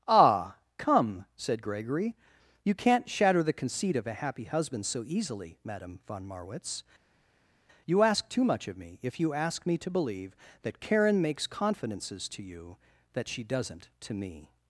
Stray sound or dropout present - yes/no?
no